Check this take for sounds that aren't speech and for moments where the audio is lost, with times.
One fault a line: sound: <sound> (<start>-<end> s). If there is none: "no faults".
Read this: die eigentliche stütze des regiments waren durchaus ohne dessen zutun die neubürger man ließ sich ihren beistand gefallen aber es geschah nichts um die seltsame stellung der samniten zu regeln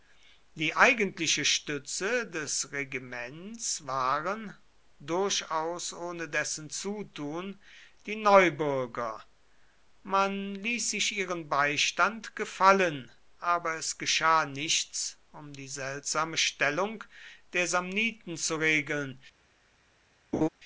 sound: laugh (20.3-20.5 s)